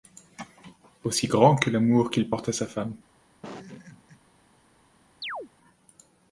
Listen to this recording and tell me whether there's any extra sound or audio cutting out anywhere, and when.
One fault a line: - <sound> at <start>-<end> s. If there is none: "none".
- laugh at 3.4-4.2 s
- chirp at 5.2-5.5 s